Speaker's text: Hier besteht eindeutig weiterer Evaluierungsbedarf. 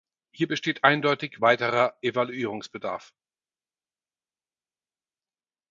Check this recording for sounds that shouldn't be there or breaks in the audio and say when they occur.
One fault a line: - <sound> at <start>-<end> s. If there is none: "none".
none